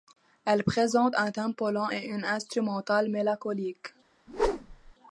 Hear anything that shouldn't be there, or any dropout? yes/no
yes